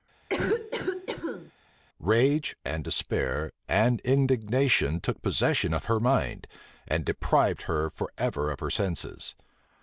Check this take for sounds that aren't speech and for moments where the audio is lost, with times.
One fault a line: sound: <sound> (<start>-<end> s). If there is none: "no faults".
sound: cough (0.3-1.5 s)